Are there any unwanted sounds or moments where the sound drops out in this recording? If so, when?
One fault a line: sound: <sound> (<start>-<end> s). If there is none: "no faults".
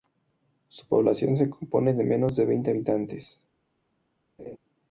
sound: laugh (4.4-4.6 s)